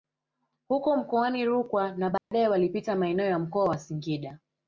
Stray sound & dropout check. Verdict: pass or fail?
fail